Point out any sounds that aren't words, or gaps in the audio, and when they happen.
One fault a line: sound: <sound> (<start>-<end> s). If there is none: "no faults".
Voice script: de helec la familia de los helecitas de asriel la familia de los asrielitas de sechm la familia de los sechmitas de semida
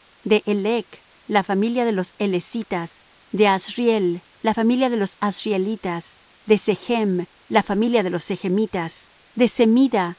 no faults